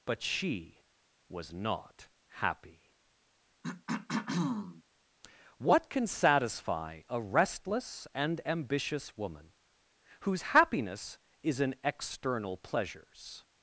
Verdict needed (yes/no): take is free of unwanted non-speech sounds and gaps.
no